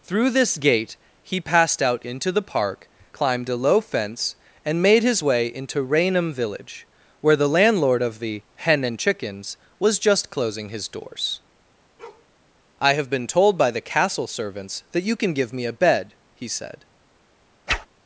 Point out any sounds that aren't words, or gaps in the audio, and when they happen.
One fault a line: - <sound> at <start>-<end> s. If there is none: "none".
- bark at 12.0-12.3 s
- whoosh at 17.7-17.9 s